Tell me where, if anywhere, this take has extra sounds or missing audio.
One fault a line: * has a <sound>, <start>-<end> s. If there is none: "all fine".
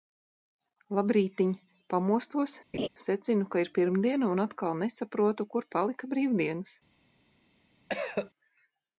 * has a laugh, 2.7-2.9 s
* has a cough, 7.9-8.3 s